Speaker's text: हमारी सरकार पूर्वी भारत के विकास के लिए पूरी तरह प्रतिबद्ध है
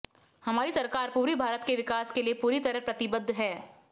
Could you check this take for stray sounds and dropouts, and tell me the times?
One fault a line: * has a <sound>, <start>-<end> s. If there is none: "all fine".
all fine